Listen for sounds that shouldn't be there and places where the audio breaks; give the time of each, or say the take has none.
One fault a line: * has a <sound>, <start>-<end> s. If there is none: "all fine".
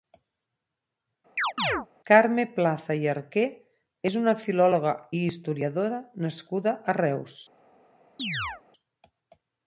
* has a chirp, 1.4-1.9 s
* has a chirp, 8.2-8.6 s